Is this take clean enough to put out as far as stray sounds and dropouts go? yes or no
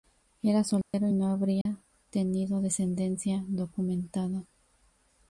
no